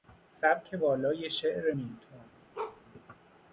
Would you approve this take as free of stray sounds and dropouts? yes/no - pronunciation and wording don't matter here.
no